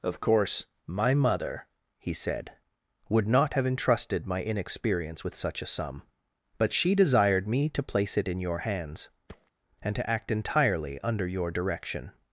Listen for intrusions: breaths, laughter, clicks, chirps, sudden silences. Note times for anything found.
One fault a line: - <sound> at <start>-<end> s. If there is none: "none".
- thud at 9.3-9.5 s